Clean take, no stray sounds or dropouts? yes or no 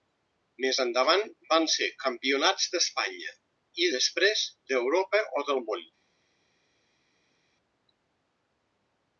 yes